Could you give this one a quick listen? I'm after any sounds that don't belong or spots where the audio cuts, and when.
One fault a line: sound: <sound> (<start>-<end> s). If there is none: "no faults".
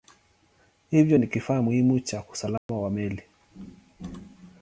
sound: dropout (2.6-2.7 s)